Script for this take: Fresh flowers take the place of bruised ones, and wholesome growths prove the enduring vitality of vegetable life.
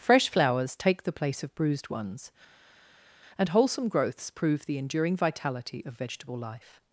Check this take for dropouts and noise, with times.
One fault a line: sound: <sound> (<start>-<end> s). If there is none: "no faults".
no faults